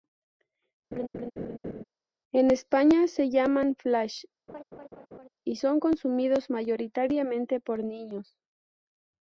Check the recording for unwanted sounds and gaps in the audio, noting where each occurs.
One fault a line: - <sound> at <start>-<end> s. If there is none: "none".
- laugh at 0.9-1.8 s
- laugh at 4.5-5.3 s